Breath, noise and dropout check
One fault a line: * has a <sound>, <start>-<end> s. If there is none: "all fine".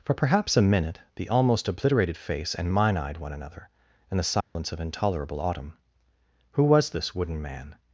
* has a dropout, 4.4-4.6 s